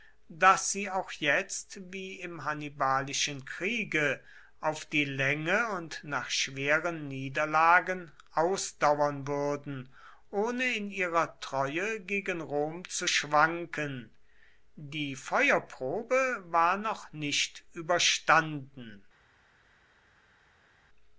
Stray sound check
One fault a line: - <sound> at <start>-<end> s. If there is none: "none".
none